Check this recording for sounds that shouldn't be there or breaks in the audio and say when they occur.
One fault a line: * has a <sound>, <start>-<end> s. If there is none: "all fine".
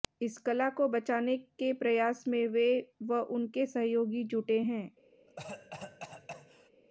* has a cough, 5.3-6.7 s